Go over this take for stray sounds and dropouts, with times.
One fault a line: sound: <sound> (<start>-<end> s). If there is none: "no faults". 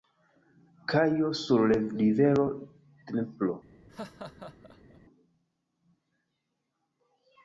sound: laugh (3.9-5.0 s)